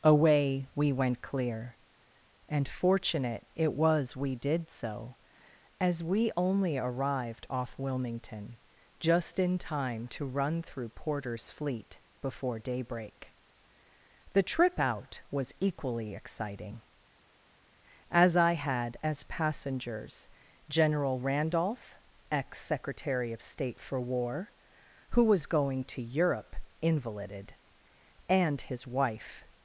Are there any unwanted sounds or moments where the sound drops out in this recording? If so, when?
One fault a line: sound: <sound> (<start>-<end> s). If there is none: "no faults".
no faults